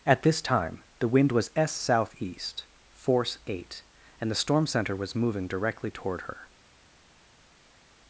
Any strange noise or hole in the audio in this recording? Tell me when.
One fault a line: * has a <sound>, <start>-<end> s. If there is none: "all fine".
all fine